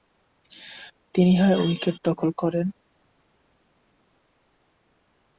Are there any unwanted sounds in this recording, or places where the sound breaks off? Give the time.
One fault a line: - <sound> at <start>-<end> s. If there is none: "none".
none